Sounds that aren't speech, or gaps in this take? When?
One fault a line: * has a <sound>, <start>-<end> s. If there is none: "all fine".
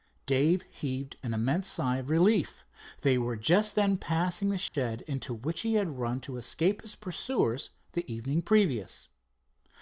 * has a dropout, 4.7-4.7 s